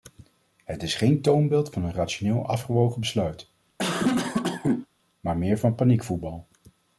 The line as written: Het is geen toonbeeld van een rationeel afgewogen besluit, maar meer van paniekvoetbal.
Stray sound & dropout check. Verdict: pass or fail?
fail